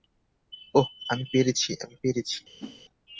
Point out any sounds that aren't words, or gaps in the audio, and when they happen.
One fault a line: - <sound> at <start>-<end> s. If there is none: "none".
- whoosh at 2.6-2.8 s